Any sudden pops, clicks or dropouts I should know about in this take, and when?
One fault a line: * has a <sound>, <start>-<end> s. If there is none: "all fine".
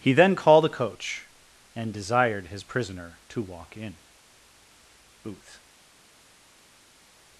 all fine